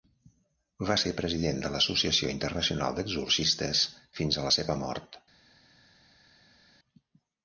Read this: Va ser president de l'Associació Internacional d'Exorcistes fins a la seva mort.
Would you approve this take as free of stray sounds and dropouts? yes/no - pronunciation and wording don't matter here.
yes